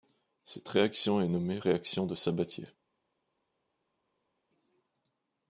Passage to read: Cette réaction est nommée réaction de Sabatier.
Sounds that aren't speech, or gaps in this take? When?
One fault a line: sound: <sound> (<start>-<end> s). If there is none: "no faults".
no faults